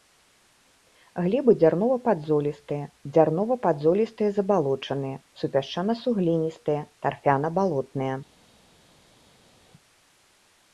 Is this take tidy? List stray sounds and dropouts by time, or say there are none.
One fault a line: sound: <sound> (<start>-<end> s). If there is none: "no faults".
no faults